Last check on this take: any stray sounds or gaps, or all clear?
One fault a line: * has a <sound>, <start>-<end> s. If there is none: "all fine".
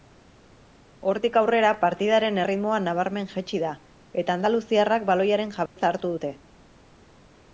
* has a dropout, 5.7-5.8 s